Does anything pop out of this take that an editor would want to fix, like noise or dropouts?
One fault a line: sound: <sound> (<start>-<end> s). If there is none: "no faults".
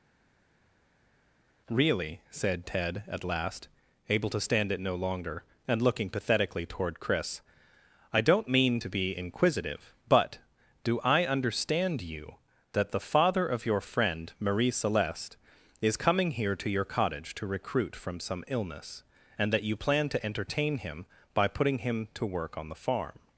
no faults